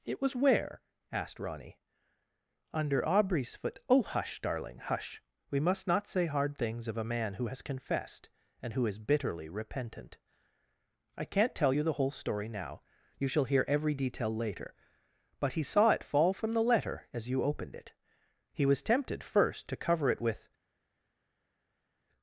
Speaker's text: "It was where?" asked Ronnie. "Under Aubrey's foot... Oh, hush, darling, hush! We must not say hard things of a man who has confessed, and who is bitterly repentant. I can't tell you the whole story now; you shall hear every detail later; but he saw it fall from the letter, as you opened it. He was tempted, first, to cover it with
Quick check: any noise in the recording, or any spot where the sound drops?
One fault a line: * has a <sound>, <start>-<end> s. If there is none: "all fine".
all fine